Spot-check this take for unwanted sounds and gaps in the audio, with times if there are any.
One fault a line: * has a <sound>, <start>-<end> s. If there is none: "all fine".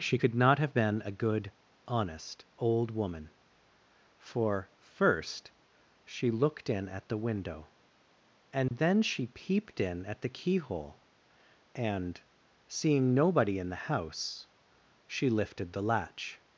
* has a dropout, 8.7-8.7 s